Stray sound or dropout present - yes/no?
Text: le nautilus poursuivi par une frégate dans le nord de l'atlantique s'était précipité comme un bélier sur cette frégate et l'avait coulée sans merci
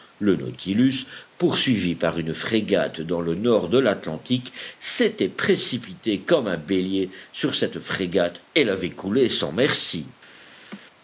yes